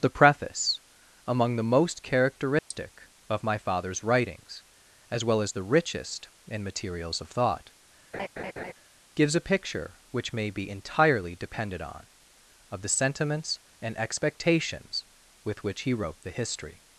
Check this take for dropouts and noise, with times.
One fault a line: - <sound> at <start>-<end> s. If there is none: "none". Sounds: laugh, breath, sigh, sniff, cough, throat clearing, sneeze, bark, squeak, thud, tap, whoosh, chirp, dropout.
- dropout at 2.6-2.7 s
- laugh at 8.1-8.7 s